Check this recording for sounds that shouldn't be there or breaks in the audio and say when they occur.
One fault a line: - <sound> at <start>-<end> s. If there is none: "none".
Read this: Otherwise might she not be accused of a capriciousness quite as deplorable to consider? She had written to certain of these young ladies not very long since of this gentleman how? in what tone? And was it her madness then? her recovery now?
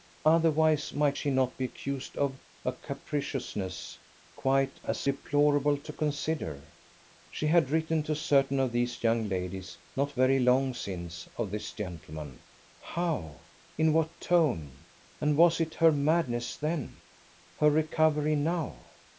none